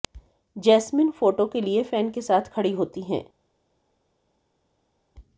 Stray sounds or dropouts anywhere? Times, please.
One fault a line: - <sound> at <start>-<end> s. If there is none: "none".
none